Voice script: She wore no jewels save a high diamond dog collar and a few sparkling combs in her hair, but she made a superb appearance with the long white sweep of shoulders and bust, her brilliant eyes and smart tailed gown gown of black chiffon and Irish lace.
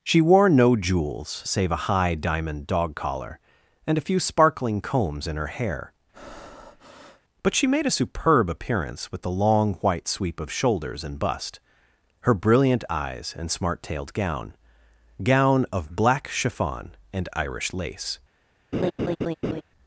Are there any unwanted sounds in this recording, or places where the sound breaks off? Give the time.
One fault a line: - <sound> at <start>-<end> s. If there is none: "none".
- breath at 6.1-7.2 s
- laugh at 18.7-19.6 s